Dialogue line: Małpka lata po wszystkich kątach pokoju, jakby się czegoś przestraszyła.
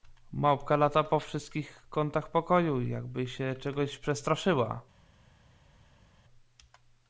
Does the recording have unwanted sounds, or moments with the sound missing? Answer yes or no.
no